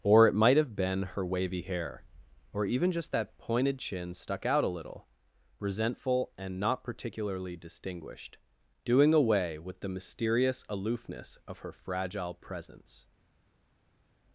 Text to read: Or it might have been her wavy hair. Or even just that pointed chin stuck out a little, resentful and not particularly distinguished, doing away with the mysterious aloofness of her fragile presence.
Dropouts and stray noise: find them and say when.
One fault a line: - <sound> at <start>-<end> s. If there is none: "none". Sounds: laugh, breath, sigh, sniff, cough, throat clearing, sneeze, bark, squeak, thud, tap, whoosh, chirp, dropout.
none